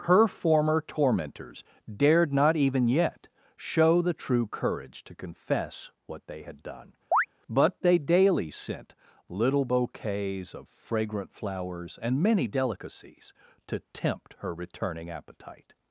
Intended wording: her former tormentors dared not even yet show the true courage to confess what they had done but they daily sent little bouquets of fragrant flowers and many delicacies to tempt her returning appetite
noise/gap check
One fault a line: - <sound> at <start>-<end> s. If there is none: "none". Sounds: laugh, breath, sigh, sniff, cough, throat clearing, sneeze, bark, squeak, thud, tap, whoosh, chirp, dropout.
- chirp at 7.1-7.3 s